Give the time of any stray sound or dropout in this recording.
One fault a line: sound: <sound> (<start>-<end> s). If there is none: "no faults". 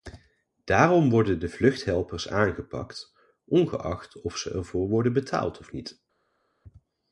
no faults